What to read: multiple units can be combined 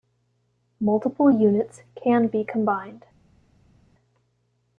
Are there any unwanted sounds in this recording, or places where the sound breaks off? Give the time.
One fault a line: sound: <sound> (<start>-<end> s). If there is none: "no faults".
no faults